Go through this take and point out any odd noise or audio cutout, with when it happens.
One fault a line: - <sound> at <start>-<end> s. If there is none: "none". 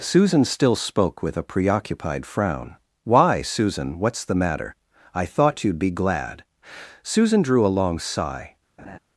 - laugh at 8.8-9.0 s